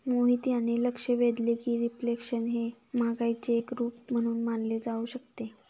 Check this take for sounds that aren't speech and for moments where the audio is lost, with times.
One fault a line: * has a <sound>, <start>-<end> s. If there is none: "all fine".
all fine